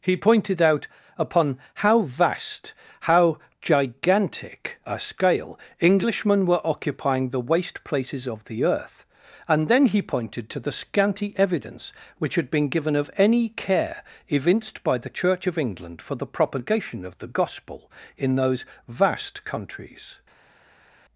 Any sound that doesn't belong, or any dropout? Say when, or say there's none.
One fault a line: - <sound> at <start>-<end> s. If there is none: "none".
none